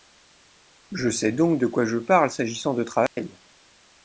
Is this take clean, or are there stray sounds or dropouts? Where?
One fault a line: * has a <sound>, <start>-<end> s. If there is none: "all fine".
* has a dropout, 3.1-3.2 s